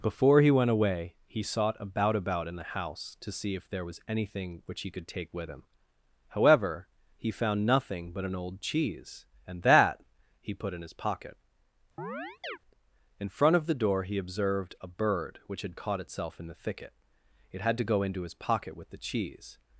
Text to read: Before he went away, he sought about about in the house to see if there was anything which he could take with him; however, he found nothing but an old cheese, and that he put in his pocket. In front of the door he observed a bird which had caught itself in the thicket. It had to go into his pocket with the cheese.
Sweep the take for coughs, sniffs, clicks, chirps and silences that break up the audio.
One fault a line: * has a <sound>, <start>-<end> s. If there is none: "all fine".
* has a chirp, 12.0-12.6 s